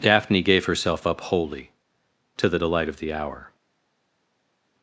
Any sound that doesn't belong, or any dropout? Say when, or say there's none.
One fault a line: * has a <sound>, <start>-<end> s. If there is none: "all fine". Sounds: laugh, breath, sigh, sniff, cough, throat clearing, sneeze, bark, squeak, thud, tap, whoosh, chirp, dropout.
all fine